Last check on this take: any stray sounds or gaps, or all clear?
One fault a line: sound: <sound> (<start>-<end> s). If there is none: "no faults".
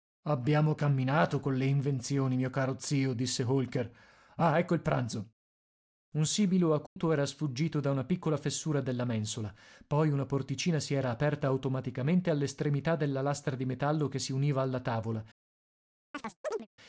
sound: dropout (6.9-7.0 s)
sound: chirp (16.1-16.7 s)